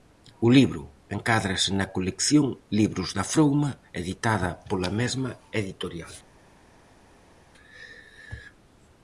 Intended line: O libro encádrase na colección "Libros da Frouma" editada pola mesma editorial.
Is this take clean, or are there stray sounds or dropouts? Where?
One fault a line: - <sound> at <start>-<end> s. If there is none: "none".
none